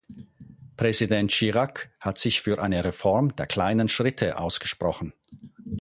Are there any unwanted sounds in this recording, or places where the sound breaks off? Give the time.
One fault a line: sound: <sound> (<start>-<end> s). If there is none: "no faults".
no faults